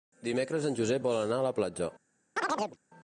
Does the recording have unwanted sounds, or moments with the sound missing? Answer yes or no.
yes